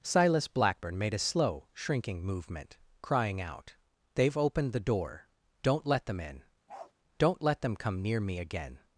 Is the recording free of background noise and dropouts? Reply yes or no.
no